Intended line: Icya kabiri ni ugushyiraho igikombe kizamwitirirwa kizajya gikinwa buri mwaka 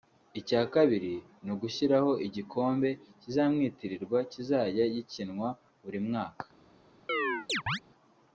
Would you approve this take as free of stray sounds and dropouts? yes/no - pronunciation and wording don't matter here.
no